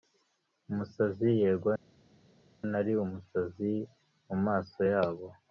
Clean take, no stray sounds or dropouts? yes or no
yes